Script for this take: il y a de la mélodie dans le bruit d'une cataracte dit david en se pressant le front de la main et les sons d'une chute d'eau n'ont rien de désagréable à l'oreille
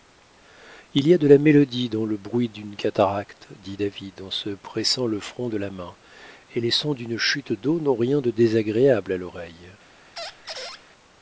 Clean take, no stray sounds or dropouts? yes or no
no